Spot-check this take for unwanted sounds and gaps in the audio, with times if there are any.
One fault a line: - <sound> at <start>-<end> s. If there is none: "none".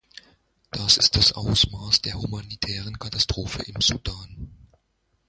none